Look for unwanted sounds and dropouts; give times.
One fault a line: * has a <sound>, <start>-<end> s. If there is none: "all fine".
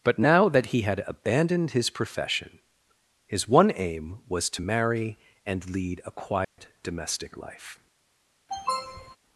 * has a dropout, 6.4-6.6 s
* has a sniff, 8.5-9.2 s